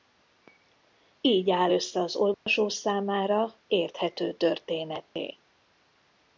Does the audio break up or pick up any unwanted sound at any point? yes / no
yes